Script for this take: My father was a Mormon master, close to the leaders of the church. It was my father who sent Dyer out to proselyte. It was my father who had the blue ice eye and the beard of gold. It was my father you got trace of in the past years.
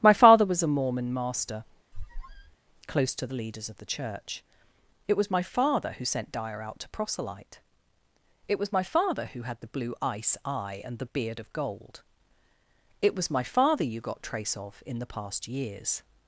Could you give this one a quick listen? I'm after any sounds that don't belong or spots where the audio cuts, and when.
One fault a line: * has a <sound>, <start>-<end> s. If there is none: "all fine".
* has a squeak, 1.9-2.6 s